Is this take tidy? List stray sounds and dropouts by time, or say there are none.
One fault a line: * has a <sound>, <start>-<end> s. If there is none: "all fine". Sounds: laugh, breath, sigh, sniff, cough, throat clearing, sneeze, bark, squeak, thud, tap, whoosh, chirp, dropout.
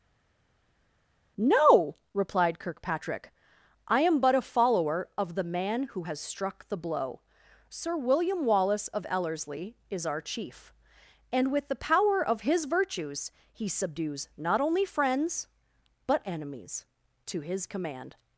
all fine